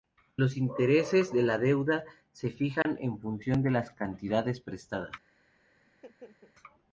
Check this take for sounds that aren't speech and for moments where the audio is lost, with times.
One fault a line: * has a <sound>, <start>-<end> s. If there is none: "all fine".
* has a dropout, 2.8-2.9 s
* has a laugh, 5.9-6.5 s